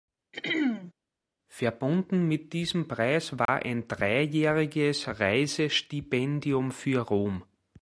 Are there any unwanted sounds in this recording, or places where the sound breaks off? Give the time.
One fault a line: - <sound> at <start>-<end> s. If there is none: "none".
- throat clearing at 0.3-0.9 s
- dropout at 3.5-3.5 s